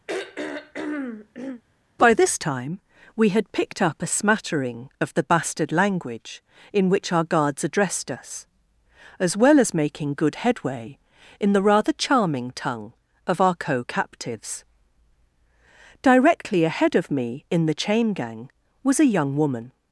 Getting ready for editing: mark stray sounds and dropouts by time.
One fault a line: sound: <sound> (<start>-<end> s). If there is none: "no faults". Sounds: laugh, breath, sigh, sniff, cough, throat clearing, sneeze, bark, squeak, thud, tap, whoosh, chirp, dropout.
sound: throat clearing (0.1-1.6 s)